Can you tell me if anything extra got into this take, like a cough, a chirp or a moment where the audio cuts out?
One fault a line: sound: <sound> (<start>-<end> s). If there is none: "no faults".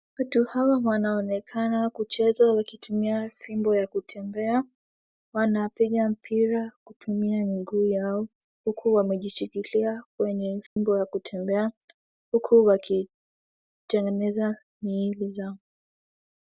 sound: dropout (10.7-10.8 s)